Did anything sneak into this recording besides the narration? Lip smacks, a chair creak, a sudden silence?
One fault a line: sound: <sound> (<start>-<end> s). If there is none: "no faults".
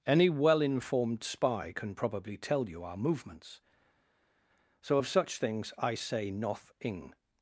no faults